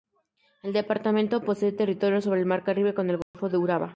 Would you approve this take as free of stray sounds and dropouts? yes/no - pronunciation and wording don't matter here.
no